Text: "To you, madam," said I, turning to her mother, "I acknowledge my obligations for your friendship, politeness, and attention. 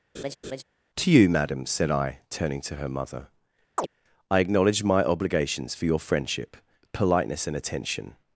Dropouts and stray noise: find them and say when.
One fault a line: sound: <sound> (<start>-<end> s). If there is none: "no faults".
sound: laugh (0.1-0.6 s)
sound: chirp (3.8-3.9 s)